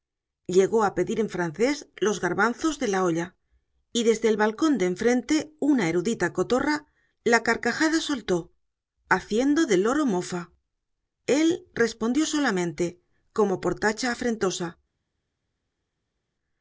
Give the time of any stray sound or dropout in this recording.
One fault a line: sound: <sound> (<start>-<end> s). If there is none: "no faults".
no faults